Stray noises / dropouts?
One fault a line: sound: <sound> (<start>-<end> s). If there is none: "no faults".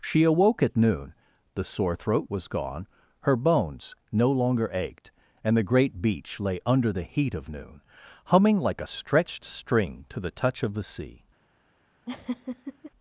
sound: laugh (12.1-12.9 s)